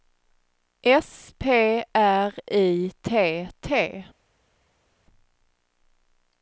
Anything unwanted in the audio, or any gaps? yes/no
no